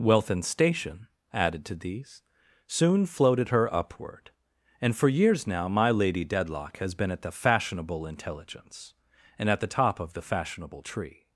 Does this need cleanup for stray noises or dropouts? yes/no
no